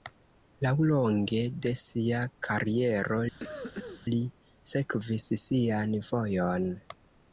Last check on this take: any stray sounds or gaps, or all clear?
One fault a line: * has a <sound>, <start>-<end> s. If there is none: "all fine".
* has a cough, 3.4-4.0 s